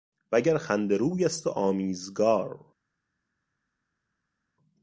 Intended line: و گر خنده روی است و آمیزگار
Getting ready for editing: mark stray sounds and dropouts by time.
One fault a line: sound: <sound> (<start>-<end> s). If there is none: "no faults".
no faults